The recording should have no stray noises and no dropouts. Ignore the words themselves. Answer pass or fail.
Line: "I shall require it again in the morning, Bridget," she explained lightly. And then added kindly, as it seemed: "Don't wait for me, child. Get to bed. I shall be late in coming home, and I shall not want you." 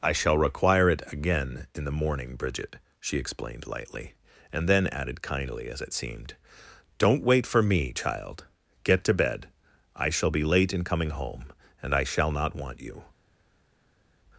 pass